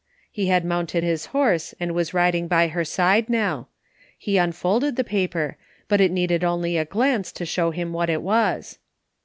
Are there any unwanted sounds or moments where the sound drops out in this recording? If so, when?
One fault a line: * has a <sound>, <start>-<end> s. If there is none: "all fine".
all fine